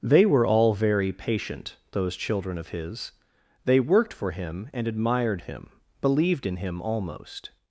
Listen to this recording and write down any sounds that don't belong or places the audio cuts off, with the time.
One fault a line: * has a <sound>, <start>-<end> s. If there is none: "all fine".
all fine